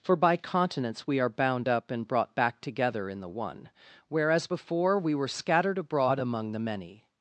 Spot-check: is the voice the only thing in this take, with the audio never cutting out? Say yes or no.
yes